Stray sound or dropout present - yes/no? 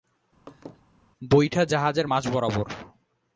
yes